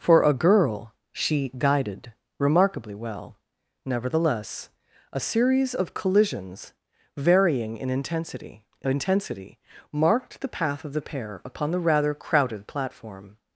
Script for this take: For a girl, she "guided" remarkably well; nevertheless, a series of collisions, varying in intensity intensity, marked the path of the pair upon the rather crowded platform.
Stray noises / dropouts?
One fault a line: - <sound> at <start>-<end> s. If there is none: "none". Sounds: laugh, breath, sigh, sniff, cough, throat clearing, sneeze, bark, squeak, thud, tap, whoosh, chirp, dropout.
none